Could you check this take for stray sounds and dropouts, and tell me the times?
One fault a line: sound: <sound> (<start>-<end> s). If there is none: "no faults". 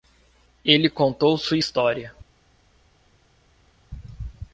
no faults